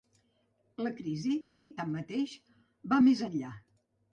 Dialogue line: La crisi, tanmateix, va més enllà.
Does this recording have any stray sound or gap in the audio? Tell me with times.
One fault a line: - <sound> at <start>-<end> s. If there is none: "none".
none